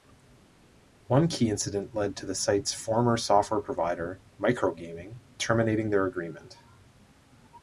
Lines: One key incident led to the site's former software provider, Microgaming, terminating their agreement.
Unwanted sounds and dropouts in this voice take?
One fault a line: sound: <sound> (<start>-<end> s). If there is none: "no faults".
no faults